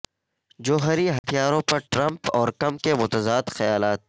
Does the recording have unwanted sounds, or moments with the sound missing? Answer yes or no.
yes